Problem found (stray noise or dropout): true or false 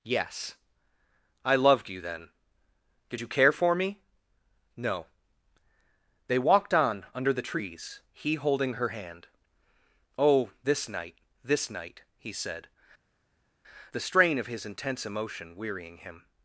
false